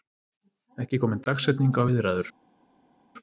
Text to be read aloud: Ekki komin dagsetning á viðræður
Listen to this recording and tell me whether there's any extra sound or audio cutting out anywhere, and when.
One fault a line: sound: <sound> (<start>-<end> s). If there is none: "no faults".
no faults